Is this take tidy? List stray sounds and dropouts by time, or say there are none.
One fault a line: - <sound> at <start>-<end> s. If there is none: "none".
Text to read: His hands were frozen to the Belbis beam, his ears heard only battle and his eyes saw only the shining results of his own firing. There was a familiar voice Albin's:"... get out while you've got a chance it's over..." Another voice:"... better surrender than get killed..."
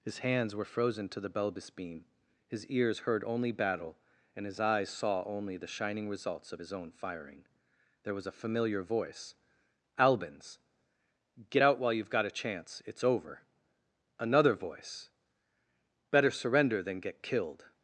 none